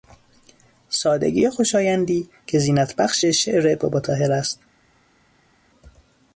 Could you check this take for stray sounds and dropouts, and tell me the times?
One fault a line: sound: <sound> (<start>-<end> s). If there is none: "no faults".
no faults